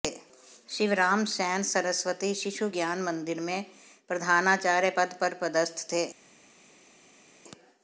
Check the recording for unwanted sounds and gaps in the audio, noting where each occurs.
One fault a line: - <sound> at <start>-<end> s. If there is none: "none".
none